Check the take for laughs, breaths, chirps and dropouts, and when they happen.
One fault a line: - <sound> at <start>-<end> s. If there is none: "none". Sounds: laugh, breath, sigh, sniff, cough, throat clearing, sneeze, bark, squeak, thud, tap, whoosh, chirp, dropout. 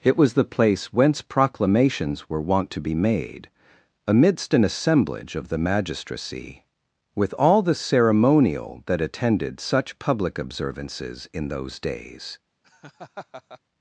- laugh at 12.6-13.6 s